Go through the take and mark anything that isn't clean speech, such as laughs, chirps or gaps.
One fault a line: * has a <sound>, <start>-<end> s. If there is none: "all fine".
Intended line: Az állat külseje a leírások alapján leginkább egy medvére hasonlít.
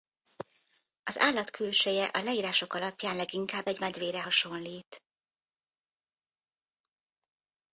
all fine